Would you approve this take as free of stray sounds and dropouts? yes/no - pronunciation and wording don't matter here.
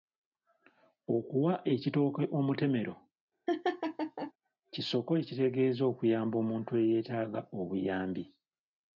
no